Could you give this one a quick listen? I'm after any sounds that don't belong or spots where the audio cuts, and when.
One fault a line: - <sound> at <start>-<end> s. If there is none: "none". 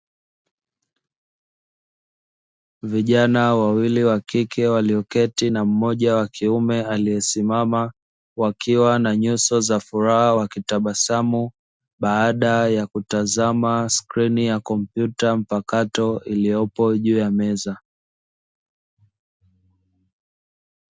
none